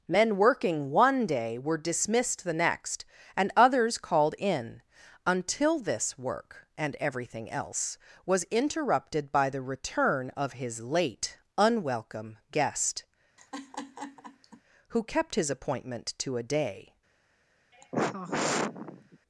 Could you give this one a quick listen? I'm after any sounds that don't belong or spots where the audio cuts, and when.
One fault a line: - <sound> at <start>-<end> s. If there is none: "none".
- laugh at 13.4-14.6 s
- sigh at 17.7-19.2 s